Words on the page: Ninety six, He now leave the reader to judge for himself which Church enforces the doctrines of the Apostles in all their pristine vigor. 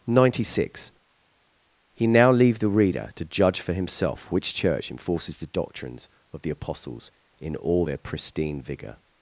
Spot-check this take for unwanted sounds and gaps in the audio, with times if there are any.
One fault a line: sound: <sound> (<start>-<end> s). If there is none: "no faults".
no faults